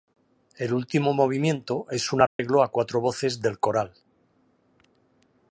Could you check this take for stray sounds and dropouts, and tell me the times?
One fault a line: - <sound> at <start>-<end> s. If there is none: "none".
- dropout at 2.3-2.4 s